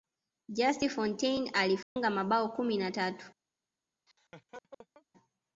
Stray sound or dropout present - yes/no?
yes